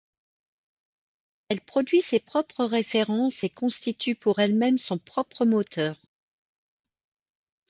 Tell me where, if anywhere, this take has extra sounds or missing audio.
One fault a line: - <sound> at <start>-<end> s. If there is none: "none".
none